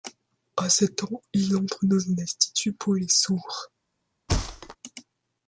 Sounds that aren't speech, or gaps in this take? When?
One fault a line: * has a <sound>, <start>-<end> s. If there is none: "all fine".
* has a thud, 4.3-4.8 s